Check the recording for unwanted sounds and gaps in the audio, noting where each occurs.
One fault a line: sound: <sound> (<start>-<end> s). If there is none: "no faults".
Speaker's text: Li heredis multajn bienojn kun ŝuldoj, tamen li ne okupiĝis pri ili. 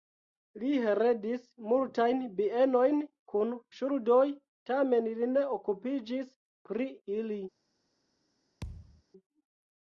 sound: thud (8.6-9.0 s)